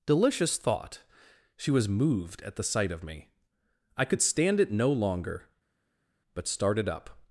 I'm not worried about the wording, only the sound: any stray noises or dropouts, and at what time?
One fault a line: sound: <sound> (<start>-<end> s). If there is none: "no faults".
no faults